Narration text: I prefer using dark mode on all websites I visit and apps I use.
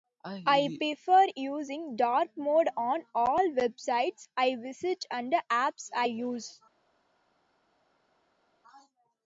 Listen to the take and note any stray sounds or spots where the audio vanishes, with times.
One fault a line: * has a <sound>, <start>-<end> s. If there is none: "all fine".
all fine